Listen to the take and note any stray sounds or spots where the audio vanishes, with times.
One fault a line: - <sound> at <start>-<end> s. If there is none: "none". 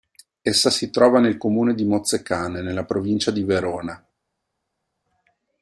none